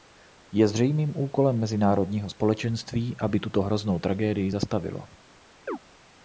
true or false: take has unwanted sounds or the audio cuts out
true